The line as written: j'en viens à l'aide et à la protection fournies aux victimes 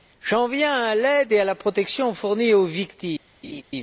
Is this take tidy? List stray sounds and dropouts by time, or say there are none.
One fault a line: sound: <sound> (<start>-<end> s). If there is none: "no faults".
sound: laugh (3.4-3.6 s)